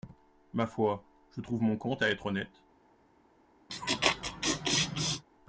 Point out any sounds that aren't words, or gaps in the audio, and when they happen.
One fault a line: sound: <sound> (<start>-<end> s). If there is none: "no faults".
sound: laugh (3.7-5.2 s)